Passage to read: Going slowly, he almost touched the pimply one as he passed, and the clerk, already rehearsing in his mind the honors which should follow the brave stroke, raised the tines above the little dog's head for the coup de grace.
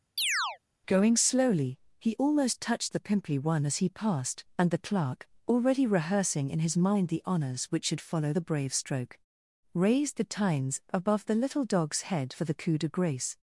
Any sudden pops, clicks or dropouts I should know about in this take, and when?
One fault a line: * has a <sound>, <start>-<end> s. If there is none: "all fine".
* has a chirp, 0.2-0.6 s